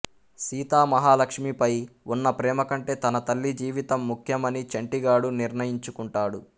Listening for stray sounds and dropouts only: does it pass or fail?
pass